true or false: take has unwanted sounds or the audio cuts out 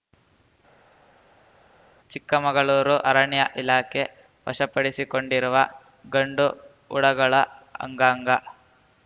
false